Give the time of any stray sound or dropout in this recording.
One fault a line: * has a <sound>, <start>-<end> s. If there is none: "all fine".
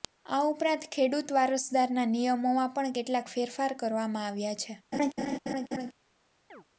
* has a laugh, 4.9-5.9 s
* has a chirp, 6.5-6.6 s